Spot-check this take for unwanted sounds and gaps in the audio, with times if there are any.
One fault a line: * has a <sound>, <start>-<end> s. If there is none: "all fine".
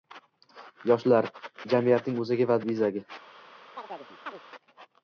* has a chirp, 3.8-4.4 s